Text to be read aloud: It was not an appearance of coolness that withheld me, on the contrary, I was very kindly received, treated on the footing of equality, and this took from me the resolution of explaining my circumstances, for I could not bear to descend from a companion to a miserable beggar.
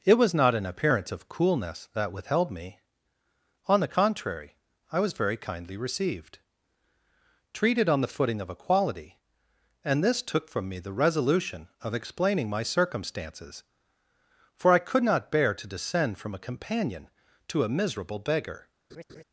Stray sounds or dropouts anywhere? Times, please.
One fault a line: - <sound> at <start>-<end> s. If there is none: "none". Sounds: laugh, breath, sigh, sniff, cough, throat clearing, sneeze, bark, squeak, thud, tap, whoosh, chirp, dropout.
- laugh at 18.9-19.2 s